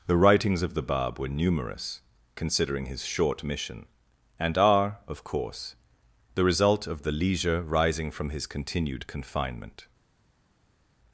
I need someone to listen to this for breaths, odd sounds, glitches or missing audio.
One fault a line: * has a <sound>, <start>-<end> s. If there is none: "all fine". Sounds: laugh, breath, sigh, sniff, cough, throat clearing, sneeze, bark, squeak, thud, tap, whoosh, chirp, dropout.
all fine